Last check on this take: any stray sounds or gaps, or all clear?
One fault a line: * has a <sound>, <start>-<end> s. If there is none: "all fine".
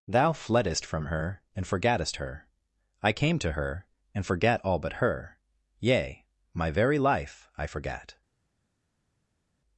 all fine